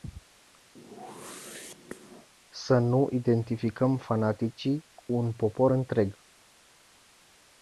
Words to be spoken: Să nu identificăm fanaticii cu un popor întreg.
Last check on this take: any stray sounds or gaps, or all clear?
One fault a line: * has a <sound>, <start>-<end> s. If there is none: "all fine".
* has a whoosh, 0.8-2.3 s